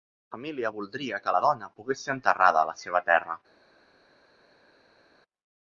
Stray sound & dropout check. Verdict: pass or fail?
pass